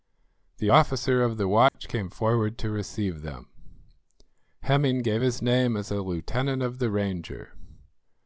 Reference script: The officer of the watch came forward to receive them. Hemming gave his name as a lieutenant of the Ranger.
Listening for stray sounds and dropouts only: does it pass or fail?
fail